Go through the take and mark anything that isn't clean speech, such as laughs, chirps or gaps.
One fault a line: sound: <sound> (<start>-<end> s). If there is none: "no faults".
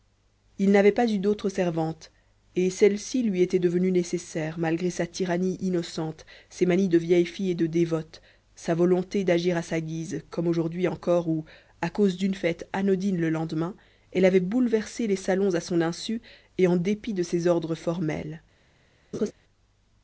sound: laugh (19.1-19.3 s)